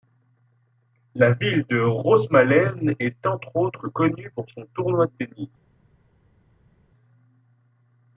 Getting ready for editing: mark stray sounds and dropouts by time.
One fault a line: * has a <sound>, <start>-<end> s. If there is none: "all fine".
all fine